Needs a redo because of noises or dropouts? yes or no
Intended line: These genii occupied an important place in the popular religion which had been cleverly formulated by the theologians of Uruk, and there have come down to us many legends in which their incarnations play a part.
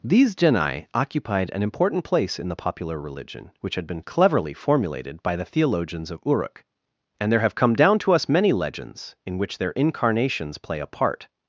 no